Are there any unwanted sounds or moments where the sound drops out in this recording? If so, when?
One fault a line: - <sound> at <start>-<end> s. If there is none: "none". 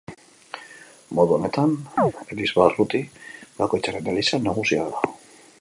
- chirp at 2.0-2.1 s